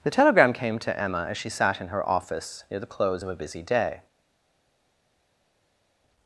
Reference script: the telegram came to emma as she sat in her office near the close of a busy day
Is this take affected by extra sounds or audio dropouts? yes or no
no